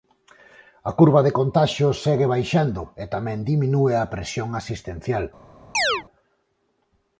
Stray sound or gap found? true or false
true